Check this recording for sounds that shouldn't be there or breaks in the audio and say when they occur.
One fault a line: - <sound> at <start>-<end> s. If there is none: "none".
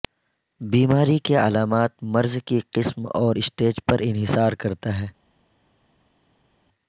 none